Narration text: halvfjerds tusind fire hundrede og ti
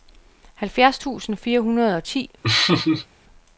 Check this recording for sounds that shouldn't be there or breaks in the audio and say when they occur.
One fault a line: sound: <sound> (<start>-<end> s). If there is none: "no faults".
sound: laugh (2.4-3.1 s)